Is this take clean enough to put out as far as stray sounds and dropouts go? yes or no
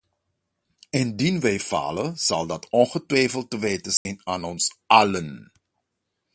no